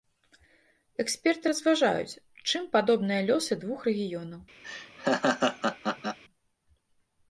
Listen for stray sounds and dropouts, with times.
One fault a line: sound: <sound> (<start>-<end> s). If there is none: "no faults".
sound: laugh (4.6-6.2 s)